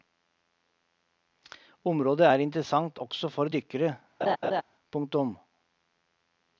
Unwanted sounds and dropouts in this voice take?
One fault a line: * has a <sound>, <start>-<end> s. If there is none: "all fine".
* has a laugh, 4.2-4.6 s